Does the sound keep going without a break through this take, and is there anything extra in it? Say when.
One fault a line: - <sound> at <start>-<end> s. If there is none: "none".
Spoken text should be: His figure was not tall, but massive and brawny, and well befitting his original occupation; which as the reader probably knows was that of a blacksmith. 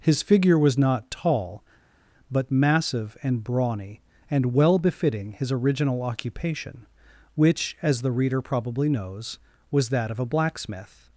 none